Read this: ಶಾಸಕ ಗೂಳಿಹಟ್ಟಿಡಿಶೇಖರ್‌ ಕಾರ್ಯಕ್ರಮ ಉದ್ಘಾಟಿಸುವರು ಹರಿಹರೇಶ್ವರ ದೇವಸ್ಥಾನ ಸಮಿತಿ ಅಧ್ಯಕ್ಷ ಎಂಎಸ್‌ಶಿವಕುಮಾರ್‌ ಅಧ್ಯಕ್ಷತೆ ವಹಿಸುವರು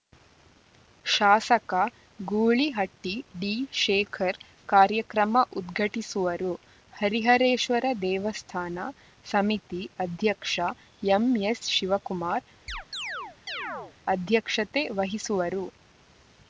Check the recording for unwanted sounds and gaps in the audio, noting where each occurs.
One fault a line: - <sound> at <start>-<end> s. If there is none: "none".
- chirp at 12.7-14.0 s